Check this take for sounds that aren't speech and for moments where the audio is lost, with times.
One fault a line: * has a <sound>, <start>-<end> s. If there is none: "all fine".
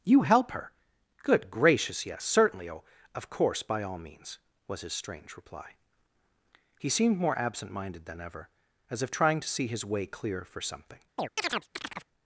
* has a chirp, 11.2-12.1 s